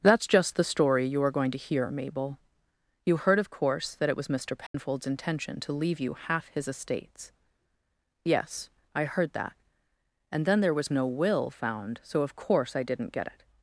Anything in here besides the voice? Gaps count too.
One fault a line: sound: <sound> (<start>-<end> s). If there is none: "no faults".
sound: dropout (4.7-4.7 s)